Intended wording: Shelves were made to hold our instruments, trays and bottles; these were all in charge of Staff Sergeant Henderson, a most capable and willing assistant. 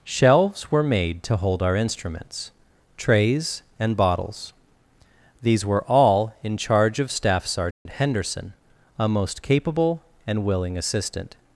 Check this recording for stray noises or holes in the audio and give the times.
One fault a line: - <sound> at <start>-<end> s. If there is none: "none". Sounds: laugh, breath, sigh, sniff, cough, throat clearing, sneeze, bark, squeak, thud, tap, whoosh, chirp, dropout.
- dropout at 7.7-7.9 s